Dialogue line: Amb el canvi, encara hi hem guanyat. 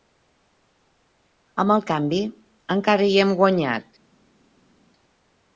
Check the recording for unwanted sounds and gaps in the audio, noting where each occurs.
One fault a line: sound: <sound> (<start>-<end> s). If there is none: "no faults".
no faults